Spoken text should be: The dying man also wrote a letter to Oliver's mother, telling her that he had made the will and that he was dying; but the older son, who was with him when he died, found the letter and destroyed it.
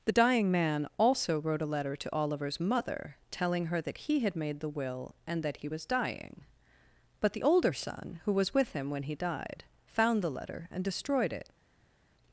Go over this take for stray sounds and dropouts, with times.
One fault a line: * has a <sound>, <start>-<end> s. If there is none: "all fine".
all fine